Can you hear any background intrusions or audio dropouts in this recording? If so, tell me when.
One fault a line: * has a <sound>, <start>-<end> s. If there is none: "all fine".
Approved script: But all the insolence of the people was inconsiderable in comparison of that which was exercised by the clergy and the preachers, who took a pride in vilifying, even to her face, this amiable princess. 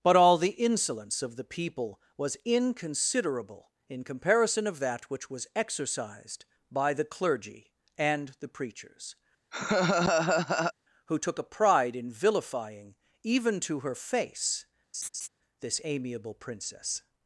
* has a laugh, 9.5-10.7 s
* has a laugh, 14.9-15.3 s